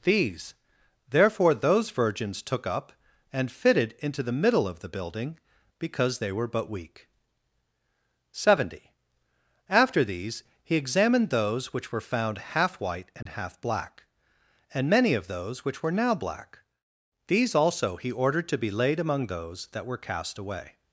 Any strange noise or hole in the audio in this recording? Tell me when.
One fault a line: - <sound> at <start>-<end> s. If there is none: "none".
- dropout at 13.2-13.3 s